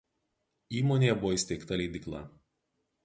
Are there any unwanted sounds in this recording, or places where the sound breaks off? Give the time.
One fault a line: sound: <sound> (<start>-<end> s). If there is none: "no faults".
no faults